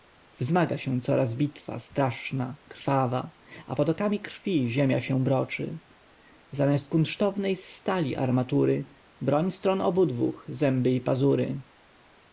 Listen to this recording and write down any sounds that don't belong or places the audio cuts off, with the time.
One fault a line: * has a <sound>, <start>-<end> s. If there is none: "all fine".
all fine